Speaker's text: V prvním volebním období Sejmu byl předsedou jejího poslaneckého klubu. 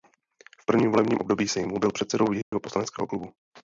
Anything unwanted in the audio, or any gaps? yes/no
yes